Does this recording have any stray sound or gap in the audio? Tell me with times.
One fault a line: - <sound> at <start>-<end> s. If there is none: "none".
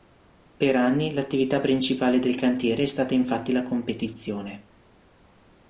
none